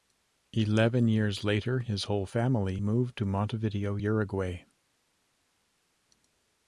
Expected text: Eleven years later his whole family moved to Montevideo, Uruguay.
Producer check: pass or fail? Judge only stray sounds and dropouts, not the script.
pass